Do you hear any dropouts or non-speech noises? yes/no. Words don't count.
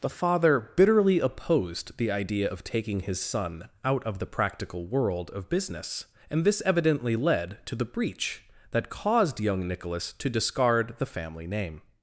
no